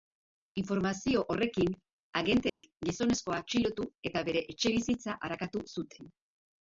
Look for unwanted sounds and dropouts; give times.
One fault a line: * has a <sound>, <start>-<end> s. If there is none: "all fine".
* has a dropout, 2.5-2.6 s